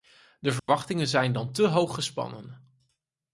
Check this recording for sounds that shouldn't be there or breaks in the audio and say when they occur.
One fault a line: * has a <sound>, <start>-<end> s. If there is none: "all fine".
* has a dropout, 0.6-0.7 s